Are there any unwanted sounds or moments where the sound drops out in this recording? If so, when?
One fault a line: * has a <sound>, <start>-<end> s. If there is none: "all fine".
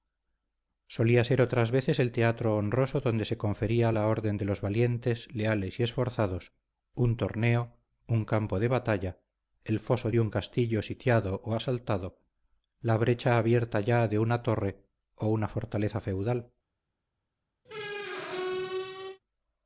* has a squeak, 17.6-19.2 s